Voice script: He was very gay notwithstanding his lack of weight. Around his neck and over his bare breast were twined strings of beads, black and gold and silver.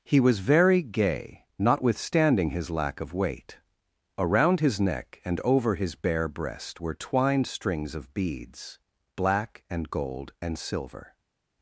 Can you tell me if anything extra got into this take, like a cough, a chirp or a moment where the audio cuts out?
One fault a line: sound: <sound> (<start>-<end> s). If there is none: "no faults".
no faults